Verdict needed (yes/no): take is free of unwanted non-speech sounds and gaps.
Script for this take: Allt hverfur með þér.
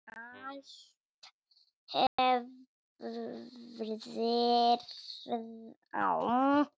no